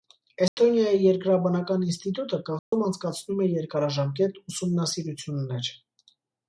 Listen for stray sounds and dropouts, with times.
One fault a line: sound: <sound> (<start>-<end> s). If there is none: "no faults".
sound: dropout (0.5-0.6 s)
sound: dropout (2.6-2.7 s)